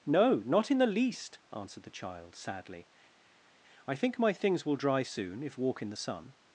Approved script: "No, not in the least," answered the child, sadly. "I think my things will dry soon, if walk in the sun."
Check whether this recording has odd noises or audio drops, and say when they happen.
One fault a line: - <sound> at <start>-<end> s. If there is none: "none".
none